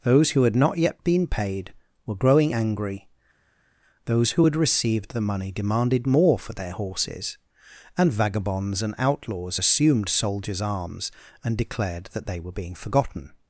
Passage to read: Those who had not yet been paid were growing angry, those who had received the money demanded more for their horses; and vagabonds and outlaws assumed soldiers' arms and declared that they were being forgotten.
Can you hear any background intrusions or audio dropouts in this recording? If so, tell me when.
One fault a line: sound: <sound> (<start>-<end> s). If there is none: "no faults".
no faults